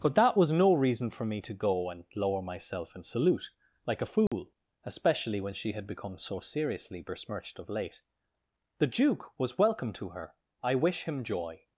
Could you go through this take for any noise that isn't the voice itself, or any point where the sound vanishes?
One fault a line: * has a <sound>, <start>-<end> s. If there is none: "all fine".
* has a dropout, 4.3-4.3 s